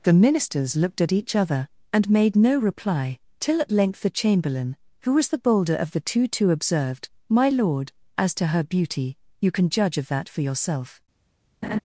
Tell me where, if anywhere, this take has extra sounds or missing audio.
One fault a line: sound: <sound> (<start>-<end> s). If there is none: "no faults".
sound: laugh (11.6-11.8 s)